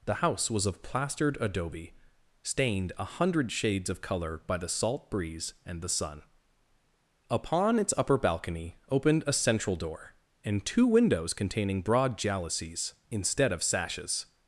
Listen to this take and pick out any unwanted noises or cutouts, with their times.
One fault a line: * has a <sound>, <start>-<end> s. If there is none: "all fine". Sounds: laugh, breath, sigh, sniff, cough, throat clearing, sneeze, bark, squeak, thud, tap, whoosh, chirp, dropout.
all fine